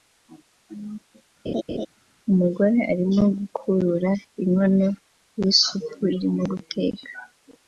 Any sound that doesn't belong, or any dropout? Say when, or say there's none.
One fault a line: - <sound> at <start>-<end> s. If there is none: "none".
- laugh at 1.5-1.9 s